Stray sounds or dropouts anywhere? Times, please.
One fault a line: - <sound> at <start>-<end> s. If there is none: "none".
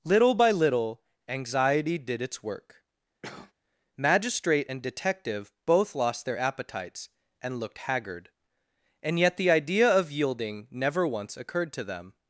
- cough at 3.2-3.5 s